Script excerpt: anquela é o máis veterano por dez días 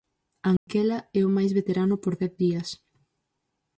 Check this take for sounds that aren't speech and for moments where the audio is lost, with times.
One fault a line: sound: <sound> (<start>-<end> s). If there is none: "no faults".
sound: dropout (0.6-0.7 s)